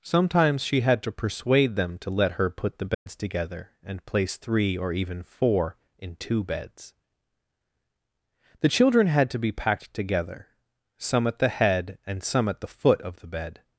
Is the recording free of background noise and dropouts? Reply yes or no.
no